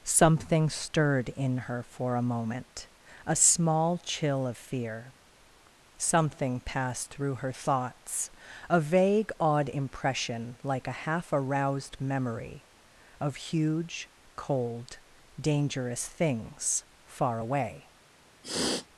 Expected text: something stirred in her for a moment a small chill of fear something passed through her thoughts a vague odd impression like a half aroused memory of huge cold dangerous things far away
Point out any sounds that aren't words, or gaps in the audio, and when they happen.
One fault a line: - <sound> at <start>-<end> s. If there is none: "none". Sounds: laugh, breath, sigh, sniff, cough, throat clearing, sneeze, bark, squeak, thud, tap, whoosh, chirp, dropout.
- sniff at 18.4-18.9 s